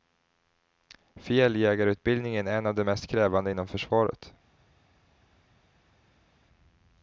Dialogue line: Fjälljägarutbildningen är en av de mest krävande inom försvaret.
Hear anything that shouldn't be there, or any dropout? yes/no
no